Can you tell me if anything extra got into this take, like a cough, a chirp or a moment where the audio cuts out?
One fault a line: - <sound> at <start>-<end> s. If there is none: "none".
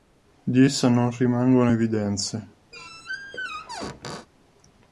- squeak at 2.7-4.3 s